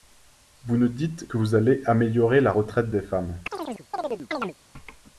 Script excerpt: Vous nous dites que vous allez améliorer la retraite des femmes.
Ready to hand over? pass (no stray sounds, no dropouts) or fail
fail